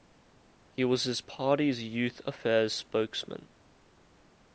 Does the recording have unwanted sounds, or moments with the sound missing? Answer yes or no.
no